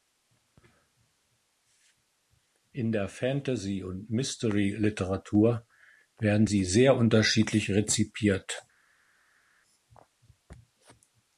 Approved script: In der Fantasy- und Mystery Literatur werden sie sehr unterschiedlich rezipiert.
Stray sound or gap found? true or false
false